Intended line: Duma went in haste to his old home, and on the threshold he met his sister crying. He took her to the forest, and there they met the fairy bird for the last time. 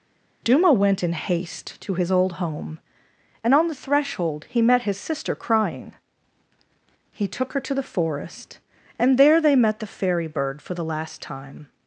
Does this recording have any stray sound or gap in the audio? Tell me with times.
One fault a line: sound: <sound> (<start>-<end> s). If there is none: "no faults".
no faults